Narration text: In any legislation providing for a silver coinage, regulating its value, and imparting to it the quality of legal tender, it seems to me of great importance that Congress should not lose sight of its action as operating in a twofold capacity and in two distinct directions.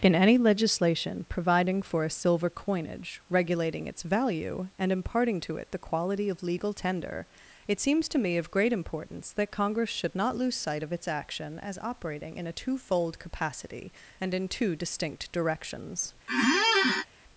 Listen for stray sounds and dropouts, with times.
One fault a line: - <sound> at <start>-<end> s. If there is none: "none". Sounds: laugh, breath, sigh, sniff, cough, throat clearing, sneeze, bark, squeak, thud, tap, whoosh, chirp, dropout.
- squeak at 16.3-17.1 s